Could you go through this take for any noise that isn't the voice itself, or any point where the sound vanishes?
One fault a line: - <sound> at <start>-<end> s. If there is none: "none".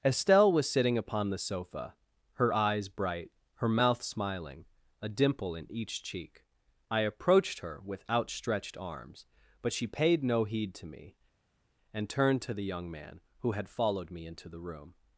none